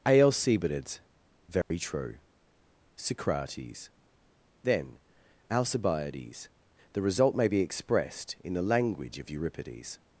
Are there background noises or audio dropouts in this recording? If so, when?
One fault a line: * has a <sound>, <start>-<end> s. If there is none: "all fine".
* has a dropout, 1.6-1.7 s